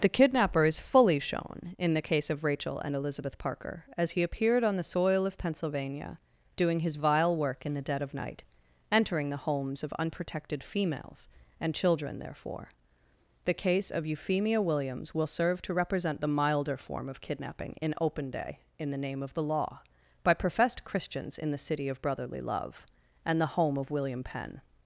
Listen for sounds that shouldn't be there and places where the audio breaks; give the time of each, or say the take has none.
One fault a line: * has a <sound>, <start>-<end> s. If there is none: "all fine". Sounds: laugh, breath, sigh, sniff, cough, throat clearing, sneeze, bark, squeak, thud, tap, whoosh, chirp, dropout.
all fine